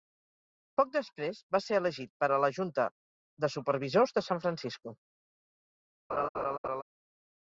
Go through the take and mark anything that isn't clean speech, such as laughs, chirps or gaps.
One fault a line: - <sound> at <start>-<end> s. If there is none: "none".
- laugh at 6.1-6.8 s